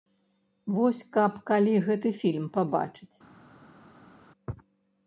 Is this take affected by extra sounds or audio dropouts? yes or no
no